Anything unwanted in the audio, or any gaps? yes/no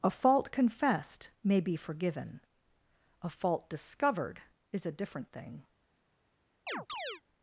yes